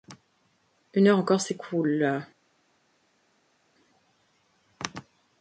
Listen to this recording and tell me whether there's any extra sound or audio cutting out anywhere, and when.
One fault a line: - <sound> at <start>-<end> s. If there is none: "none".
none